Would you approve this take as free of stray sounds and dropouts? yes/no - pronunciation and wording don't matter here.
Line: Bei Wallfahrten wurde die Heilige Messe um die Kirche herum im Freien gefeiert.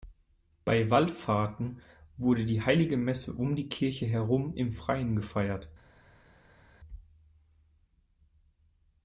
yes